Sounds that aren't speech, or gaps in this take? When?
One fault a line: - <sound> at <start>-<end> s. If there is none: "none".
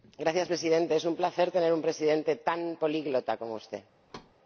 - thud at 4.1-4.3 s